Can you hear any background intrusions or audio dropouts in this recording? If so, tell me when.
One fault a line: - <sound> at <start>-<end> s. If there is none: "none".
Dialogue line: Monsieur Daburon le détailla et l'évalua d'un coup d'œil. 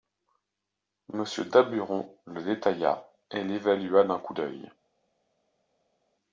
none